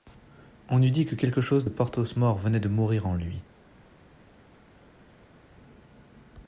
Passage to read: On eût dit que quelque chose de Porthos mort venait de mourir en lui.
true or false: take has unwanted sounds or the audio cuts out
false